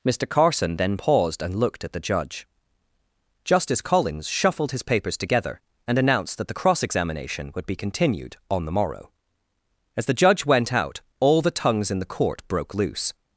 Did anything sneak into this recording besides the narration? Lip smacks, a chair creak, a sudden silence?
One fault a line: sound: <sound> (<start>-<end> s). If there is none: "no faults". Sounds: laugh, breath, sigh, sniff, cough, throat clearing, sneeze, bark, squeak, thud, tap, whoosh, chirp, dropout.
no faults